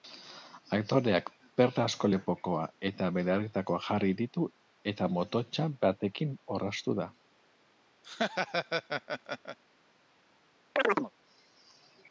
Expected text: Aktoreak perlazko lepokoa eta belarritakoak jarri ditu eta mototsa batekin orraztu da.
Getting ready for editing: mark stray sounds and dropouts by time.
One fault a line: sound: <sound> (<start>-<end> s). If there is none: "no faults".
sound: laugh (8.0-9.6 s)
sound: chirp (10.8-11.1 s)